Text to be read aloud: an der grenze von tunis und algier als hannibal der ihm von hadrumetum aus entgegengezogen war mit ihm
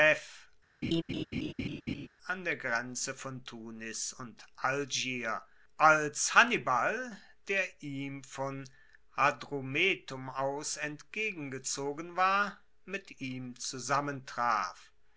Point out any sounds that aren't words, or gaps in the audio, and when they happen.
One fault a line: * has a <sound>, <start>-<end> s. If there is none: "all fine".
* has a laugh, 0.8-2.1 s